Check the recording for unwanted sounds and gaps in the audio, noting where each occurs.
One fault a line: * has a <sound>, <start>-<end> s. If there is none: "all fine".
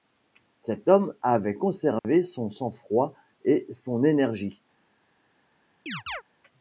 * has a dropout, 2.0-2.0 s
* has a chirp, 5.9-6.2 s